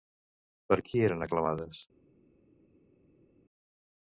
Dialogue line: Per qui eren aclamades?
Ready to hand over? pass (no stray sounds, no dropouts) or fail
pass